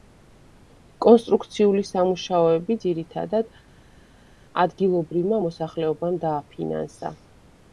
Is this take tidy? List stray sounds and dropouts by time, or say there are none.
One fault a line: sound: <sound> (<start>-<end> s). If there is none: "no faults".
no faults